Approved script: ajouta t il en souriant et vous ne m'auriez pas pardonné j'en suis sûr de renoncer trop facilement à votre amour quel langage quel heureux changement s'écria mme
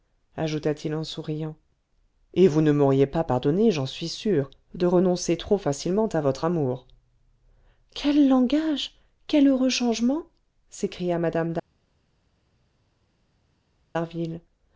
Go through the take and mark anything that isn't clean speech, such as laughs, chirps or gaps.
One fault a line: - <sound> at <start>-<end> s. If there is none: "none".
none